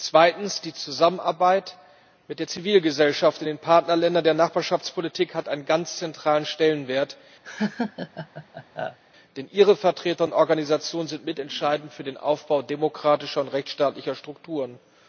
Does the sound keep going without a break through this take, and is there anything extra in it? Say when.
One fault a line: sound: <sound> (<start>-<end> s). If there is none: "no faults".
sound: laugh (7.4-9.0 s)